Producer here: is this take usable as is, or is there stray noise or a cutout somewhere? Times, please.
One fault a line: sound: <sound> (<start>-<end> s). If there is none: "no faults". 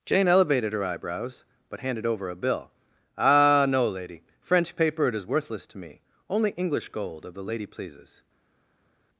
no faults